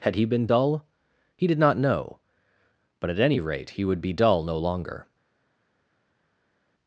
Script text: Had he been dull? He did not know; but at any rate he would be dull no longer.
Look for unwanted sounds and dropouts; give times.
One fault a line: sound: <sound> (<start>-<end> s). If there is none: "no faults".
no faults